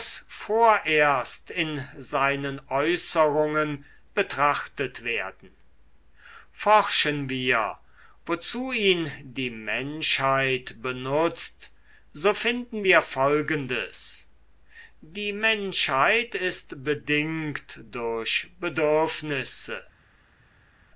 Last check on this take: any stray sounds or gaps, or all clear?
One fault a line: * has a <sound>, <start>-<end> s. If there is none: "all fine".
all fine